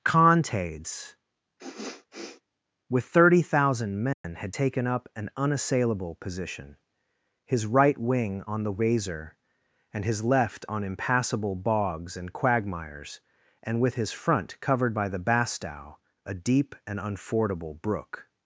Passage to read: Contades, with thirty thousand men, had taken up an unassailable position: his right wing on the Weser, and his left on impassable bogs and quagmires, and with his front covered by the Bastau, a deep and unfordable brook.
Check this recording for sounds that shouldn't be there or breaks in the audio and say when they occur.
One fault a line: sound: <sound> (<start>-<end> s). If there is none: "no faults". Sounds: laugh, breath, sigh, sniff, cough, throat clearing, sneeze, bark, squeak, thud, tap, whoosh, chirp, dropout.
sound: sniff (1.6-2.4 s)
sound: dropout (4.1-4.2 s)